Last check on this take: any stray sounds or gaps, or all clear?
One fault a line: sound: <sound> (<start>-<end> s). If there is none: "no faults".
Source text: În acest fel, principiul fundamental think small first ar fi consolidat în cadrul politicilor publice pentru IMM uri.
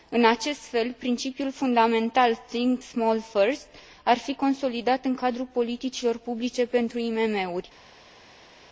no faults